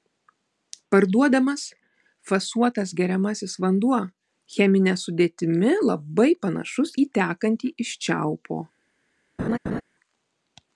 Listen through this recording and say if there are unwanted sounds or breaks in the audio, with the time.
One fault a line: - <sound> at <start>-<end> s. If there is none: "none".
- laugh at 9.4-9.8 s